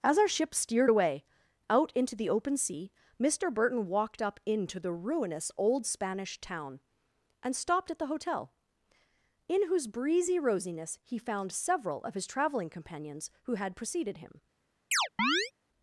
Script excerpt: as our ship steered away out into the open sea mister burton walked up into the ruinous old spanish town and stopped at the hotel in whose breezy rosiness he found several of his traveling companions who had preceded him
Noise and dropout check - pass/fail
fail